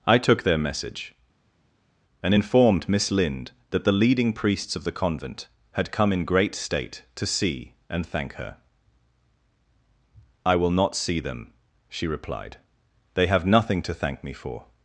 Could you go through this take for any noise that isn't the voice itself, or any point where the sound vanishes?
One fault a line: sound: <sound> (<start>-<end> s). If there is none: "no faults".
no faults